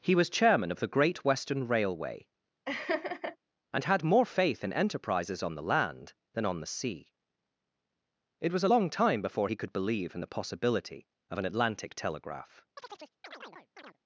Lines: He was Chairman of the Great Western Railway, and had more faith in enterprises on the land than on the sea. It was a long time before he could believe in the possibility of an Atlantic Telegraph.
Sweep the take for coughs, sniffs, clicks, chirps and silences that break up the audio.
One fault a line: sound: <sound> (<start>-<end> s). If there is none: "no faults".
sound: laugh (2.7-3.4 s)
sound: chirp (12.8-14.0 s)